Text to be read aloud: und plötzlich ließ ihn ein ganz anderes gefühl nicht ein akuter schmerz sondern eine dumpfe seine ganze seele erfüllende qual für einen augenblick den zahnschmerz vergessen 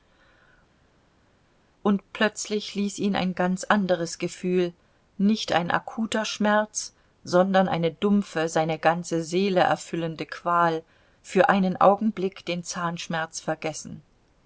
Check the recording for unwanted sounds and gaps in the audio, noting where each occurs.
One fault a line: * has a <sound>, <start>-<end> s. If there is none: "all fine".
all fine